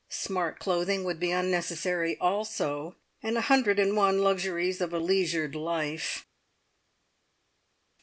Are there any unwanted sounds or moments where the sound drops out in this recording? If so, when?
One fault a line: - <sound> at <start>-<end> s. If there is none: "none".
none